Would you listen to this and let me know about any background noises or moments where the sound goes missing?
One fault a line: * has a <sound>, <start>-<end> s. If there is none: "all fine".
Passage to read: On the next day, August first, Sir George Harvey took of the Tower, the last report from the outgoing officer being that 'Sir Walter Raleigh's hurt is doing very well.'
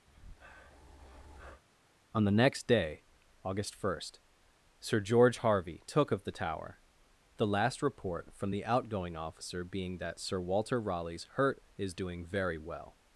* has a breath, 0.1-1.6 s